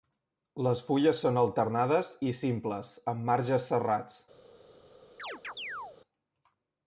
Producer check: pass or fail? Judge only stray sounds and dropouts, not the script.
fail